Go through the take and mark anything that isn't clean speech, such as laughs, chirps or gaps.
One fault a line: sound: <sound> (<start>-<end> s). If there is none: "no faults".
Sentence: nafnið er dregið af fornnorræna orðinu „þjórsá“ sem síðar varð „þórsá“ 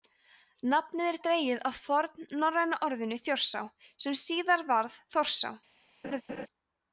sound: laugh (6.0-6.5 s)